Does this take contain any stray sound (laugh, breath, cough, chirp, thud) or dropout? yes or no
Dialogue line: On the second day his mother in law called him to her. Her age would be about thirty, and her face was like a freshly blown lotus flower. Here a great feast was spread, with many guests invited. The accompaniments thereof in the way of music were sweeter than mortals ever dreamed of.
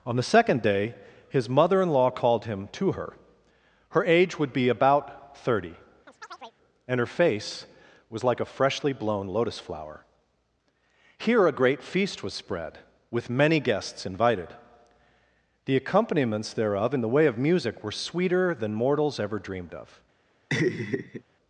yes